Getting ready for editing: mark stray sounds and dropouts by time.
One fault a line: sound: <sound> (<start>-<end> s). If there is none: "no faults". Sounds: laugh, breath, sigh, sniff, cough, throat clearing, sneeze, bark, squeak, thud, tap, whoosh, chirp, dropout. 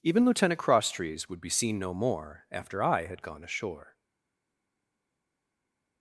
no faults